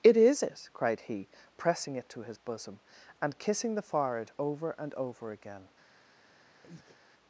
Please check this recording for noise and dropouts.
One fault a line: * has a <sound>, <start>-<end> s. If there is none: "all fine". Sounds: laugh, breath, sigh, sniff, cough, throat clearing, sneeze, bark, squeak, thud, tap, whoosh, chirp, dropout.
* has a breath, 6.6-7.0 s